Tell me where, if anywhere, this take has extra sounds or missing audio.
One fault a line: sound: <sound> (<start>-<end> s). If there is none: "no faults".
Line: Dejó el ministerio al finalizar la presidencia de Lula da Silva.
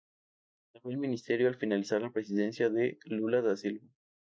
no faults